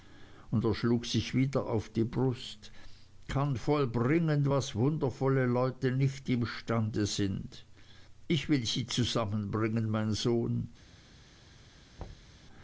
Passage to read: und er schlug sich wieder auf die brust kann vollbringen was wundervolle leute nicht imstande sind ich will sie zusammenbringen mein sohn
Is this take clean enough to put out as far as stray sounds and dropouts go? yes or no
no